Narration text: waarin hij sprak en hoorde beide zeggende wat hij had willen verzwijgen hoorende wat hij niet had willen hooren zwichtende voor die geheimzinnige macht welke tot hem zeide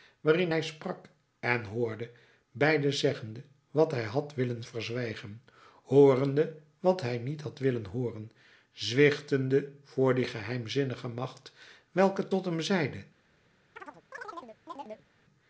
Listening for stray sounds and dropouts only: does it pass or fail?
fail